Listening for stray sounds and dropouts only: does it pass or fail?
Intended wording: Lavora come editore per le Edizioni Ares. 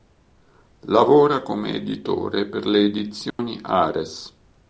fail